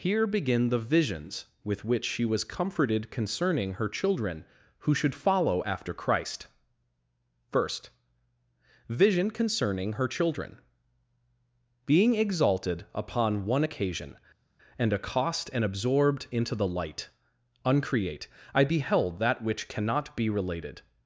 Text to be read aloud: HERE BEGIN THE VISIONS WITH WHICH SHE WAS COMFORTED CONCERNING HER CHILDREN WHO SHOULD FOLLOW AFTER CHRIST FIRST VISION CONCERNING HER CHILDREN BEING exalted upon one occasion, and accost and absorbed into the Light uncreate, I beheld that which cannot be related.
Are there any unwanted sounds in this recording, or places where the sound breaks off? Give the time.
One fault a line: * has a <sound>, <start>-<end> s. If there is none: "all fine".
all fine